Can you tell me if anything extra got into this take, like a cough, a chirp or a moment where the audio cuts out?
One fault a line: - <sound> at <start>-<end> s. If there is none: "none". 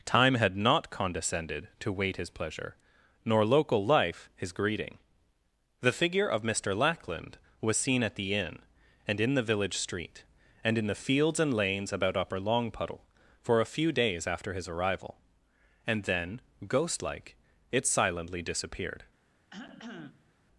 - cough at 19.5-20.3 s